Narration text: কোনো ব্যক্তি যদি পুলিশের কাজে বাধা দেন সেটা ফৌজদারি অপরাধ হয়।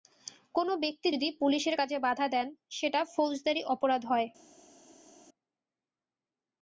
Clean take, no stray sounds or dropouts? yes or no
yes